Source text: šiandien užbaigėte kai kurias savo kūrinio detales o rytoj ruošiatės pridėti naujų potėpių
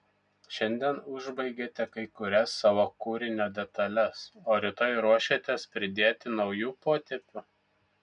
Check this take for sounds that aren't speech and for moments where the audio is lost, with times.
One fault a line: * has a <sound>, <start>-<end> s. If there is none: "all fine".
all fine